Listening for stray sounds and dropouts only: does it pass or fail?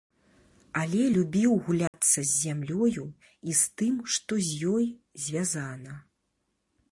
fail